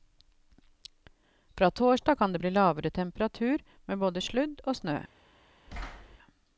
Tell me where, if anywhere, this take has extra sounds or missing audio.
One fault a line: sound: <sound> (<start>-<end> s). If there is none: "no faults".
sound: thud (5.7-6.2 s)